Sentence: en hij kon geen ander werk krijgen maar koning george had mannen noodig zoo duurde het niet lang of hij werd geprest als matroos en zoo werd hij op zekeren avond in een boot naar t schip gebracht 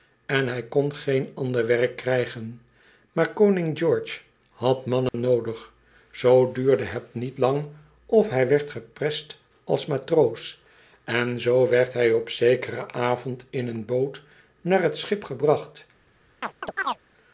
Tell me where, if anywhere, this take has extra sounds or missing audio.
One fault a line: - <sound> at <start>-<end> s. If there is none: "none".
- dropout at 5.1-5.1 s
- chirp at 16.4-17.0 s